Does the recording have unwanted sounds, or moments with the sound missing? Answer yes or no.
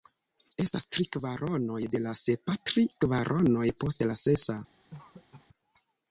yes